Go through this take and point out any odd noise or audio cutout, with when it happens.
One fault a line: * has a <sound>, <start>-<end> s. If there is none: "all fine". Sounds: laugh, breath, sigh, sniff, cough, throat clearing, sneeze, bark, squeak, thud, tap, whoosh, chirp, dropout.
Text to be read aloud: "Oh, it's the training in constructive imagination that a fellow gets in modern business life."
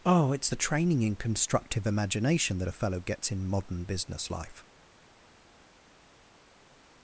all fine